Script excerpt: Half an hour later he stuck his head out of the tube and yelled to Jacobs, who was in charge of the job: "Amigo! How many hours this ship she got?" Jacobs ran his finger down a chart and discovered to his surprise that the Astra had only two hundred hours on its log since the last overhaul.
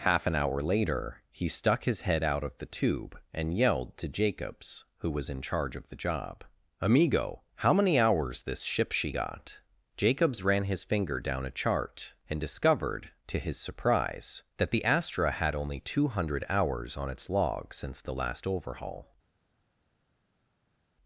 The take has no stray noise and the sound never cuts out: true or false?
true